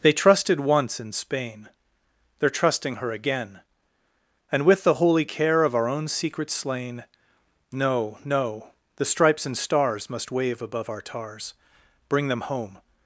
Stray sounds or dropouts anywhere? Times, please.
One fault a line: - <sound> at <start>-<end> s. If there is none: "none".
none